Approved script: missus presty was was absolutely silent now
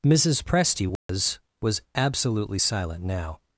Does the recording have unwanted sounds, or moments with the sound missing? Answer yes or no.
yes